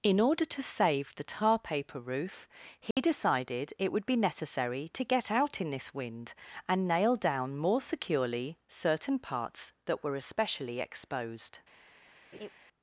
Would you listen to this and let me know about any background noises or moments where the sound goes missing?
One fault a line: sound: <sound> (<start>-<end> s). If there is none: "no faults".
sound: dropout (2.9-3.0 s)
sound: laugh (12.3-12.5 s)